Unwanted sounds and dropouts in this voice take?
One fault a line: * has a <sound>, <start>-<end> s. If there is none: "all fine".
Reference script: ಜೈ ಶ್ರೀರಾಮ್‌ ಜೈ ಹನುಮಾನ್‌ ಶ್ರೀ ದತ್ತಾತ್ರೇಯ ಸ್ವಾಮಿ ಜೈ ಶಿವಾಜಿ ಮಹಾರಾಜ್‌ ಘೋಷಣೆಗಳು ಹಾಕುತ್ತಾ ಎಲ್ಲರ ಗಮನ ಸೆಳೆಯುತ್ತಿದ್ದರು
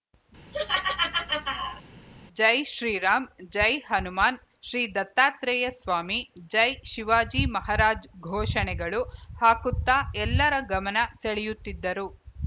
* has a laugh, 0.5-1.8 s